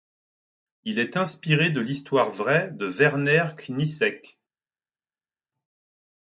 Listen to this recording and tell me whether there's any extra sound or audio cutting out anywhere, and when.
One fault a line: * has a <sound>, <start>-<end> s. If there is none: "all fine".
all fine